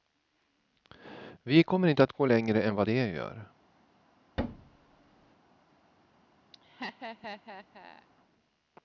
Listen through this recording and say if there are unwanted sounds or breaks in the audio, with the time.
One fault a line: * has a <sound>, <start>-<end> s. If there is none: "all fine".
* has a thud, 4.4-5.4 s
* has a laugh, 6.5-8.1 s